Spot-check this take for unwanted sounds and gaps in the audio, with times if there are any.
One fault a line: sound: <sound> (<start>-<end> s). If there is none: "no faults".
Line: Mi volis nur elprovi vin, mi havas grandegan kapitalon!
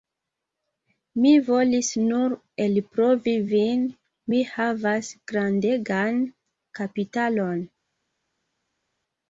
no faults